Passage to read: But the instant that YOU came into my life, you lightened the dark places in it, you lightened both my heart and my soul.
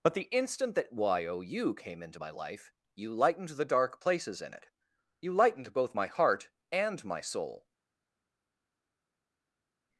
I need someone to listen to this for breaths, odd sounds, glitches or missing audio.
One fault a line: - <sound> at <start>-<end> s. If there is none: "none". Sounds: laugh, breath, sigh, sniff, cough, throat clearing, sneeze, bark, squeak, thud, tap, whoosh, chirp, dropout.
none